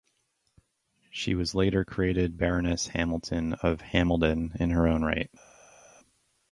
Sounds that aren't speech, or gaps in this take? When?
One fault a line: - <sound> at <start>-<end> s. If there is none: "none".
none